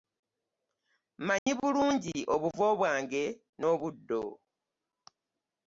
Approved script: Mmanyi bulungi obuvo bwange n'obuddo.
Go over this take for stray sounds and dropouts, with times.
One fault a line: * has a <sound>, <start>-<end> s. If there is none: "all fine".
* has a dropout, 1.4-1.5 s